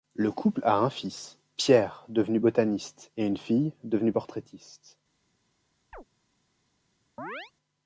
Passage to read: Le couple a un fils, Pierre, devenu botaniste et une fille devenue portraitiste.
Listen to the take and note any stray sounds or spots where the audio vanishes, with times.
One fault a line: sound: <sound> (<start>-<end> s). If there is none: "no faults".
sound: chirp (5.9-6.0 s)
sound: chirp (7.2-7.5 s)